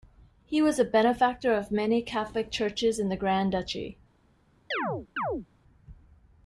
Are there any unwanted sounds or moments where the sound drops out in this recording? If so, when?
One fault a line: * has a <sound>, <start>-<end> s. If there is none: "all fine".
* has a chirp, 4.7-5.5 s